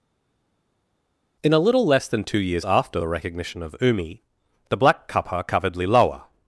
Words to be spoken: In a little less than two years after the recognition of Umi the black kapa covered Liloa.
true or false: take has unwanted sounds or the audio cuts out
false